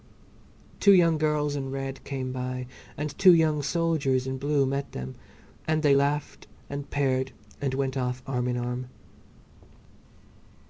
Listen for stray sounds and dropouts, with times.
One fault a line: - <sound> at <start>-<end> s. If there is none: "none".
none